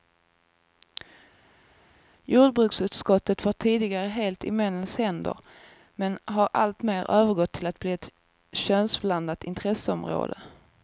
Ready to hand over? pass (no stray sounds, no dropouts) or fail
pass